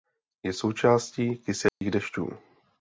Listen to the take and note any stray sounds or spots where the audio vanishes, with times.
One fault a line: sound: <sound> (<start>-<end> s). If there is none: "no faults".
sound: dropout (1.7-1.8 s)